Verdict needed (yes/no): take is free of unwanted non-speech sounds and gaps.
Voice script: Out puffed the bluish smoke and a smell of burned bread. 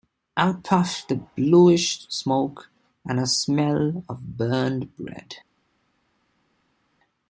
yes